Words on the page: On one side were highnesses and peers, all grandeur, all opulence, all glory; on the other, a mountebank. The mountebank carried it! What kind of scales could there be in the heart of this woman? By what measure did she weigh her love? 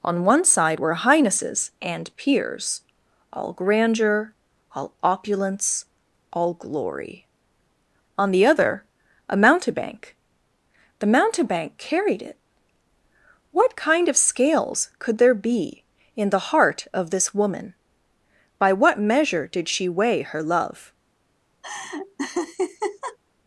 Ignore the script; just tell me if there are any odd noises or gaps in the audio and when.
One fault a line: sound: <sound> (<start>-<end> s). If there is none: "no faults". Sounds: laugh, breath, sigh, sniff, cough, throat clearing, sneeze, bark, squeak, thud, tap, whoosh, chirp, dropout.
sound: laugh (21.6-23.2 s)